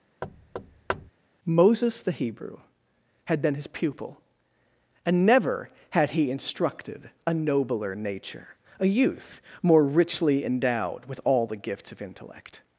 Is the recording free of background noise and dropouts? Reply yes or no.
no